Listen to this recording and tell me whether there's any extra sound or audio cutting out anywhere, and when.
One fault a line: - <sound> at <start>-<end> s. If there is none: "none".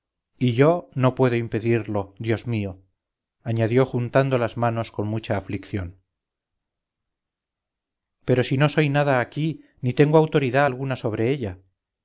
none